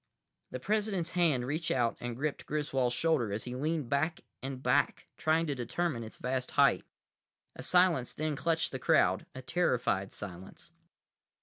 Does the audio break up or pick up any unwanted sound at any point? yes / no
no